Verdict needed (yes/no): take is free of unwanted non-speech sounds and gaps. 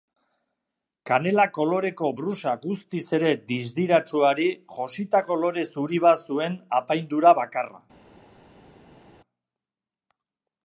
yes